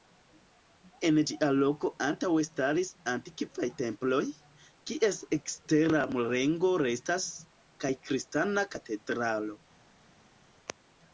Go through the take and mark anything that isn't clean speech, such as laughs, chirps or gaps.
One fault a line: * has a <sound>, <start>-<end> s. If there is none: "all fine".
all fine